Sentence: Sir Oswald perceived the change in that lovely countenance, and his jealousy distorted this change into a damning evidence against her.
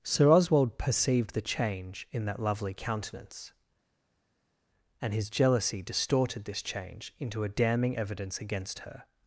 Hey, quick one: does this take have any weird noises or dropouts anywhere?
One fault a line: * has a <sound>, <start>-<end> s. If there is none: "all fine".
all fine